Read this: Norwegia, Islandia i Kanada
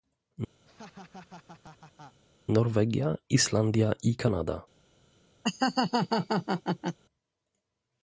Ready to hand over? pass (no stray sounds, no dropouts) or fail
fail